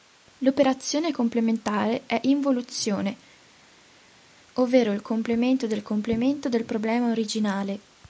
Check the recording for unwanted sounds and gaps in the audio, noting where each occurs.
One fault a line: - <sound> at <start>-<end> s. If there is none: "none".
none